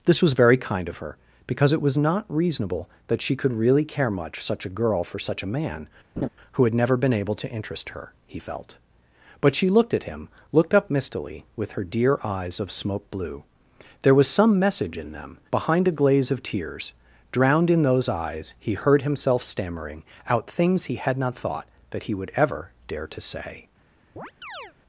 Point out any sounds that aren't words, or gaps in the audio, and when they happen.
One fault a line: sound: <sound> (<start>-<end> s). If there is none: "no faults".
sound: laugh (6.2-6.3 s)
sound: chirp (24.2-24.7 s)